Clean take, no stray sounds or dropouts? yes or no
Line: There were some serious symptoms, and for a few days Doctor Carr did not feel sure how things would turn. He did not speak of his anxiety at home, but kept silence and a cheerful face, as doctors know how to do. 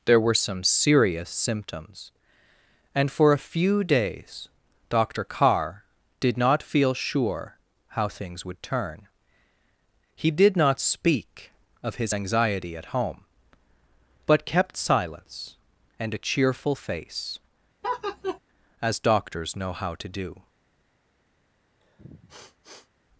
no